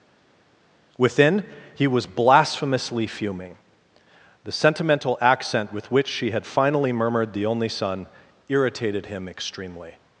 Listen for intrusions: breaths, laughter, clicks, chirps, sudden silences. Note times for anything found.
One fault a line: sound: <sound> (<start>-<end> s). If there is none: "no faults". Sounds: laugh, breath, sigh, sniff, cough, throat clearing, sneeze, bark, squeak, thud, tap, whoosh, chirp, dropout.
no faults